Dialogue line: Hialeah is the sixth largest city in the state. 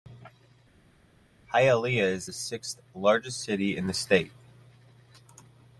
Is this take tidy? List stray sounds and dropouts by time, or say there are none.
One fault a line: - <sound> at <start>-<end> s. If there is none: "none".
none